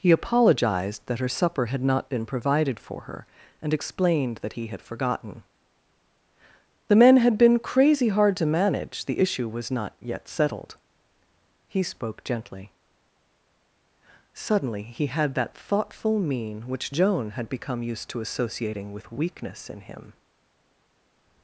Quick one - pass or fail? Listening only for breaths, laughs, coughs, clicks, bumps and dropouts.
pass